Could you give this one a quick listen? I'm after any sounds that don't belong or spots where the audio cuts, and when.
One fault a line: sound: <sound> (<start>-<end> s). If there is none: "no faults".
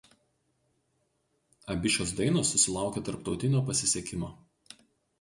no faults